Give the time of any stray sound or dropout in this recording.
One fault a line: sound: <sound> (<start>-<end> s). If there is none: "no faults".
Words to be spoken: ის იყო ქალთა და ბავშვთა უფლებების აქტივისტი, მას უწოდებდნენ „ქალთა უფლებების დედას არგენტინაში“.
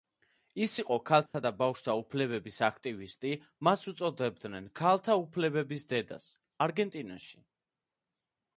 sound: dropout (1.3-1.3 s)